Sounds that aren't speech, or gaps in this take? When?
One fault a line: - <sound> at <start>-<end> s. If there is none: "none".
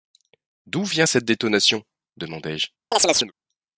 - chirp at 2.9-3.3 s